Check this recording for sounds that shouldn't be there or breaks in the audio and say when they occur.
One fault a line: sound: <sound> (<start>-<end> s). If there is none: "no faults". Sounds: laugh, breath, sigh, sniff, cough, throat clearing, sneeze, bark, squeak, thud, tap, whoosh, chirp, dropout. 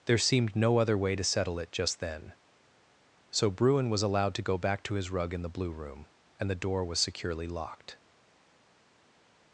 no faults